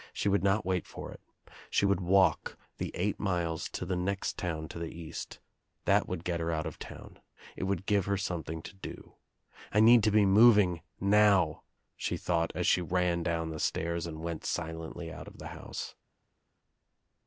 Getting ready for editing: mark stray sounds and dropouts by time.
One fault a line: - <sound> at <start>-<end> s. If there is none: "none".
none